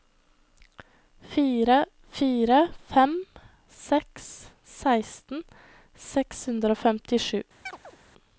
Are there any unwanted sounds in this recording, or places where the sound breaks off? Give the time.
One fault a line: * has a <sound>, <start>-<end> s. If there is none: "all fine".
* has a chirp, 7.7-8.0 s